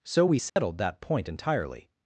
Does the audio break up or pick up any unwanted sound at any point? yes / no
yes